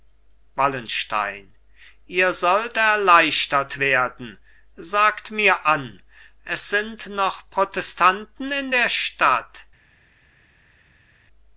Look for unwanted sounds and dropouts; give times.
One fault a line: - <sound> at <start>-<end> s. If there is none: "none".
none